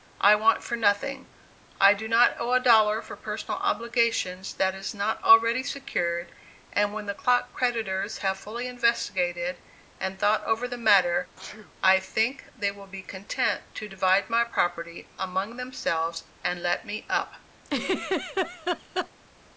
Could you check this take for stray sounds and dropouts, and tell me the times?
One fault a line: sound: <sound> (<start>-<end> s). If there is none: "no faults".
sound: sneeze (11.4-11.7 s)
sound: laugh (17.6-19.1 s)